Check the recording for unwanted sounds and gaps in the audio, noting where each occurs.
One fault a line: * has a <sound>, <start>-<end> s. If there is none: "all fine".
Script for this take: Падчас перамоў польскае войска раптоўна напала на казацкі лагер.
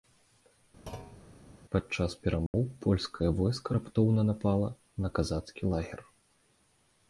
* has a thud, 0.9-1.2 s
* has a dropout, 2.5-2.5 s